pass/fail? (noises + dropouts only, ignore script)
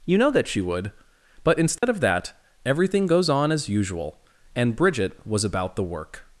fail